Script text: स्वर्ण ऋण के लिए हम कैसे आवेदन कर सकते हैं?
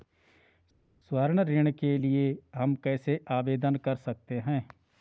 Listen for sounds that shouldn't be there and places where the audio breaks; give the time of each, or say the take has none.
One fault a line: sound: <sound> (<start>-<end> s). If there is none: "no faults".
no faults